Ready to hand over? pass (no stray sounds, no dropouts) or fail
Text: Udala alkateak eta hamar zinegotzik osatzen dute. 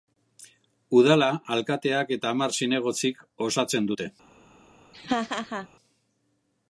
fail